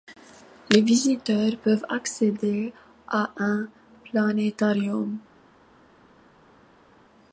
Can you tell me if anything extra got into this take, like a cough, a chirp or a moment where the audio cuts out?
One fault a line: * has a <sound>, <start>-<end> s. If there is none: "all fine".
all fine